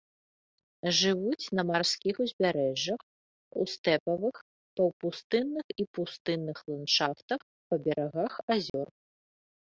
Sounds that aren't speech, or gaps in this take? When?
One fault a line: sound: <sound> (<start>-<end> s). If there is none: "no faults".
sound: dropout (8.7-8.7 s)